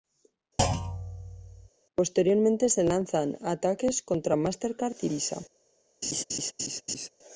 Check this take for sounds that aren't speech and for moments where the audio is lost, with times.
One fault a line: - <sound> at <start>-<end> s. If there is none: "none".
- thud at 0.6-1.7 s
- laugh at 6.0-7.1 s